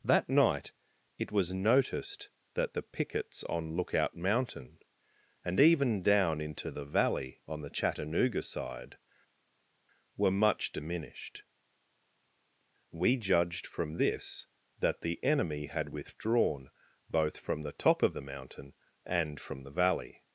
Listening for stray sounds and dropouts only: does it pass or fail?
pass